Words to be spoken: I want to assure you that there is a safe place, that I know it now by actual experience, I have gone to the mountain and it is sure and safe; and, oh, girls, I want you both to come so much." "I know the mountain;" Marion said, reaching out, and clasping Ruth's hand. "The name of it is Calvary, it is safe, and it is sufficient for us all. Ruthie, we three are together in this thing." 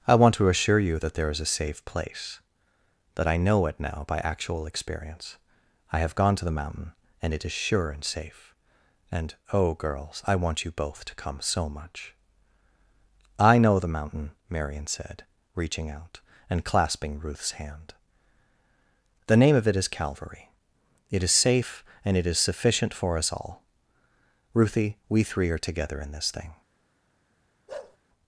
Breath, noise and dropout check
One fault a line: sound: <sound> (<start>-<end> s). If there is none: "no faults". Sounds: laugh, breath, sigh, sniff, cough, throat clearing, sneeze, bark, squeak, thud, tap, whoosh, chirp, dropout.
sound: bark (27.7-28.0 s)